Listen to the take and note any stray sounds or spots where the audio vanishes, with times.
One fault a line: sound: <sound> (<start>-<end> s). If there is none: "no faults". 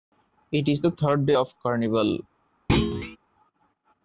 sound: thud (2.7-3.2 s)